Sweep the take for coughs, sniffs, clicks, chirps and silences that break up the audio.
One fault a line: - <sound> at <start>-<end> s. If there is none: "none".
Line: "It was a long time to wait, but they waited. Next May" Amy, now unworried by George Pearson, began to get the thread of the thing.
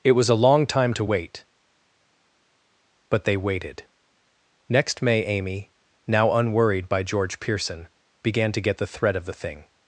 none